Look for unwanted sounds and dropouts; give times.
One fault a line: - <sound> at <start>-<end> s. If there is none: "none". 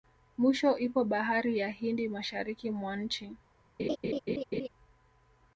- laugh at 3.8-4.7 s